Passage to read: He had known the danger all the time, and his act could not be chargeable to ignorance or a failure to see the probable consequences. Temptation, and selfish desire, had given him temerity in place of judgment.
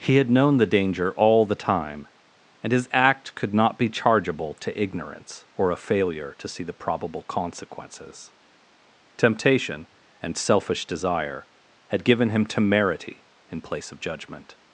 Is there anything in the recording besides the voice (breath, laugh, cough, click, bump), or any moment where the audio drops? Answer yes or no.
no